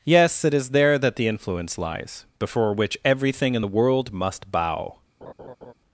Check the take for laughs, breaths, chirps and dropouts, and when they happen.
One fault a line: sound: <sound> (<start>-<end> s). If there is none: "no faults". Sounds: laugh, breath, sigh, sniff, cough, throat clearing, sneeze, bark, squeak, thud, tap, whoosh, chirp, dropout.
sound: laugh (5.2-5.7 s)